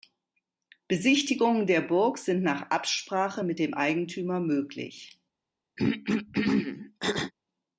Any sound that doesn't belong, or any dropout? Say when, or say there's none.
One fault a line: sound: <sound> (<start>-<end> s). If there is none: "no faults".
sound: throat clearing (5.8-7.3 s)